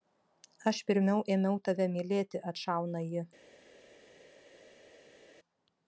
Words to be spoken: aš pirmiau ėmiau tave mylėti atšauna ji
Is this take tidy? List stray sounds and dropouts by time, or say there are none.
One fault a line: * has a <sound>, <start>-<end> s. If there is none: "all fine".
all fine